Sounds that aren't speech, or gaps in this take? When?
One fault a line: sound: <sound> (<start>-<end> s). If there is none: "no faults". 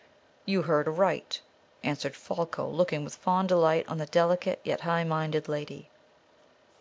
no faults